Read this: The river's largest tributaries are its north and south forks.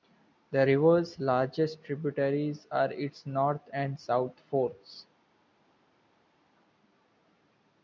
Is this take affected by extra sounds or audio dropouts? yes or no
no